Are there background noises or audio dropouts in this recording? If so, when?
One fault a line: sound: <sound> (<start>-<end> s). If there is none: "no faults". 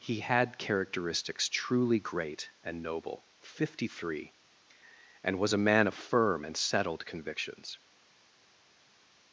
no faults